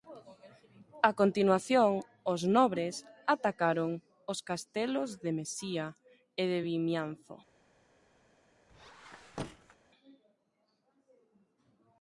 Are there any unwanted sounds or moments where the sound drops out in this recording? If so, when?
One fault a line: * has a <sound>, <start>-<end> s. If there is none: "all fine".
* has a squeak, 8.7-9.8 s